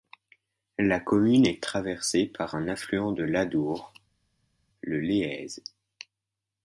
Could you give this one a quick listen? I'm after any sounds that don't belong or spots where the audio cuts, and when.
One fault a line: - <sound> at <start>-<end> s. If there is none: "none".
none